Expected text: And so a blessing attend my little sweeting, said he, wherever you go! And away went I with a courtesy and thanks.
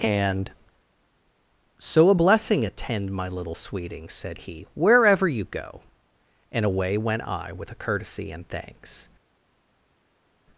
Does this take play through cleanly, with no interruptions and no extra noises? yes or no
yes